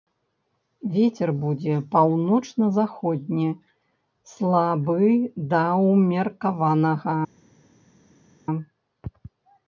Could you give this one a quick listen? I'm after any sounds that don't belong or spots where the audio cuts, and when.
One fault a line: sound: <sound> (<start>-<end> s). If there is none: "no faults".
no faults